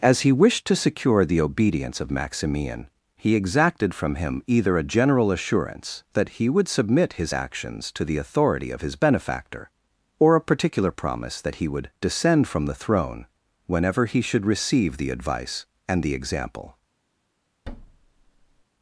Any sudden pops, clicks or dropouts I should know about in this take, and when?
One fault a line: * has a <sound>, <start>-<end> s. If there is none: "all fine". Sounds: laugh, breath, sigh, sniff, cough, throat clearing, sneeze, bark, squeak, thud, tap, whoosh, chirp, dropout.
* has a thud, 17.7-18.6 s